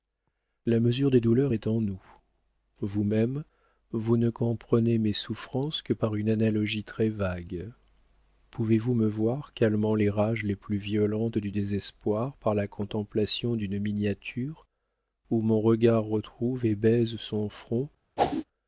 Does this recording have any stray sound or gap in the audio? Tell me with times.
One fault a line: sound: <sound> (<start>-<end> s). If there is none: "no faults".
sound: whoosh (18.2-18.4 s)